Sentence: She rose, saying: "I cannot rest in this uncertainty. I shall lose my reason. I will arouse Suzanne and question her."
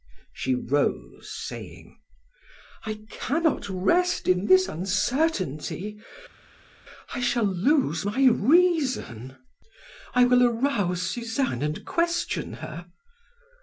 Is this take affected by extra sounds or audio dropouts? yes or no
no